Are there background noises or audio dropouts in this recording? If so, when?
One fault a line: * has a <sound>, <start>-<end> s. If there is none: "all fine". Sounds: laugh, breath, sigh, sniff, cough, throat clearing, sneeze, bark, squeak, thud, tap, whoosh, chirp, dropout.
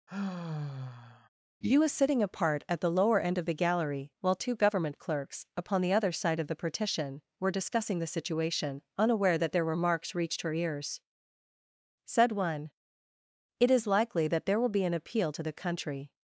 * has a sigh, 0.1-1.3 s